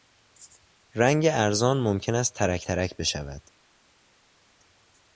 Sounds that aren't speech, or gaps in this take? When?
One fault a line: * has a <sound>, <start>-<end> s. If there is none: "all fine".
all fine